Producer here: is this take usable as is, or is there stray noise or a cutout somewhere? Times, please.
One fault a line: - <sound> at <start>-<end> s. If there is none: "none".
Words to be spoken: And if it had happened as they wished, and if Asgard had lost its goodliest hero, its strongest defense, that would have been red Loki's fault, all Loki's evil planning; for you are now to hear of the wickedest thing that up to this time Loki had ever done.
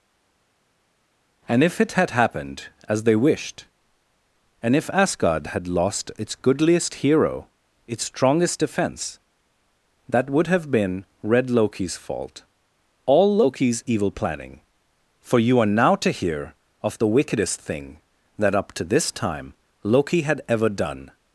none